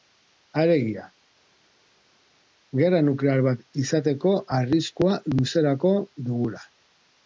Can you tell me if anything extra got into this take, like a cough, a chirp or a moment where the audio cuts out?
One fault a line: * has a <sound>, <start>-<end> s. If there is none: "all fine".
all fine